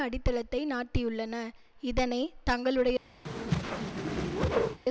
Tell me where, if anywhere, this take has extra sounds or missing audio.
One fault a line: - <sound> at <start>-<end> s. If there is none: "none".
- whoosh at 3.2-4.8 s